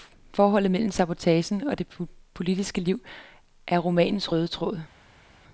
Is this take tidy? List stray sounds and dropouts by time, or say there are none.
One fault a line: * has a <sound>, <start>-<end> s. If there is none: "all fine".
all fine